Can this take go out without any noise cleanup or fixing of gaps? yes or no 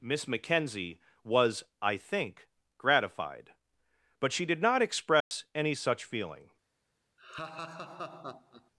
no